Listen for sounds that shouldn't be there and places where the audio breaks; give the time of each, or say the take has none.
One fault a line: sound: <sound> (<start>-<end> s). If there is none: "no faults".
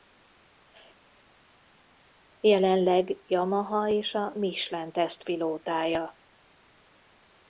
no faults